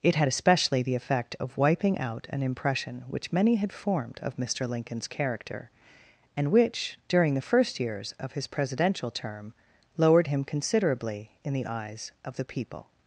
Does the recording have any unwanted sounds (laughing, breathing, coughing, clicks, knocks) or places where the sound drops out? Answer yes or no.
no